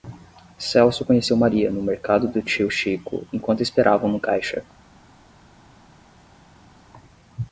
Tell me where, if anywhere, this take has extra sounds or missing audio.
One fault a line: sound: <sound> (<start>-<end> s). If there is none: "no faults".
no faults